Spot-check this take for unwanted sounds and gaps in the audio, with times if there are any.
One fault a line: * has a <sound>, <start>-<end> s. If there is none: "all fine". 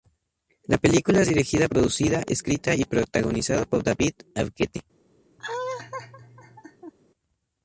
* has a laugh, 5.4-6.9 s